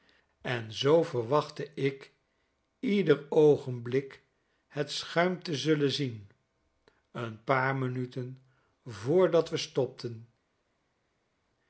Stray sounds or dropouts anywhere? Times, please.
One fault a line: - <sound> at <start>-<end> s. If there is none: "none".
none